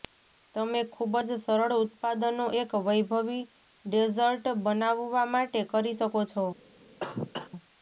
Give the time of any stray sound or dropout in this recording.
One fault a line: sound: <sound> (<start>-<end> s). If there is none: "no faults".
sound: cough (7.0-7.5 s)